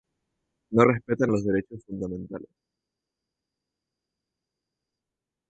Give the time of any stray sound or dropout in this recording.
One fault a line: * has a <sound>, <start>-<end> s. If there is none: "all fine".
all fine